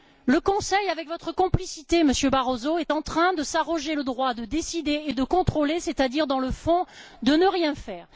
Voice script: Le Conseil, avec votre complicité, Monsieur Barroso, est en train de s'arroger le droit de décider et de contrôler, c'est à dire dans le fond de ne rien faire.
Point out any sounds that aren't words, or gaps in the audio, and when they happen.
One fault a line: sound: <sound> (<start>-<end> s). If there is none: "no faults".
no faults